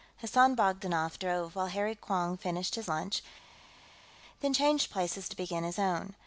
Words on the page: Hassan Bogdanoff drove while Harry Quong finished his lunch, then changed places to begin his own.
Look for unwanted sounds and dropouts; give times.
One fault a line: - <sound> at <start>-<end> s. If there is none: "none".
none